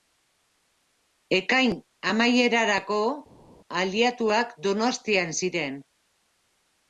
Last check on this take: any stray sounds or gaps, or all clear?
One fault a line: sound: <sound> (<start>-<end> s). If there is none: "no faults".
no faults